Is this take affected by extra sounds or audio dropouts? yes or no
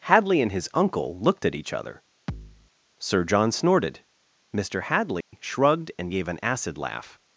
yes